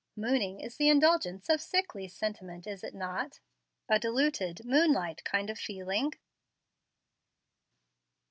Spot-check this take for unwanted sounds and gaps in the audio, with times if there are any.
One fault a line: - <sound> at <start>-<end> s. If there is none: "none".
none